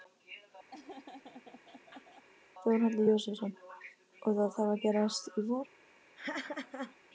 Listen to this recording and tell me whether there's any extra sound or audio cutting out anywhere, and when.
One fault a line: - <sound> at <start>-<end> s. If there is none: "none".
- laugh at 0.7-2.2 s
- laugh at 6.2-7.0 s